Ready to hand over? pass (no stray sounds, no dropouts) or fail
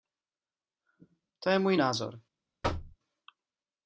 fail